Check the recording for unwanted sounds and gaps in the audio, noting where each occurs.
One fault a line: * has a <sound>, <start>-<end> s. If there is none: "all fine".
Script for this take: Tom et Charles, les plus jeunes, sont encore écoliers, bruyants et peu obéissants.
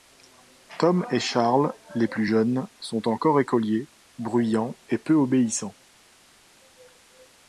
all fine